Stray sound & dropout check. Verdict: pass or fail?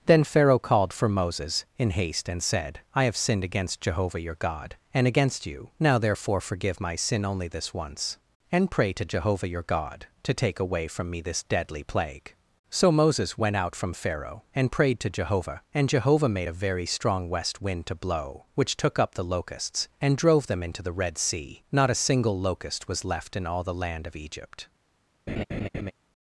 fail